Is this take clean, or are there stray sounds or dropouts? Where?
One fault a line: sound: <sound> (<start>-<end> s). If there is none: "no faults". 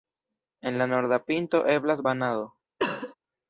sound: cough (2.8-3.2 s)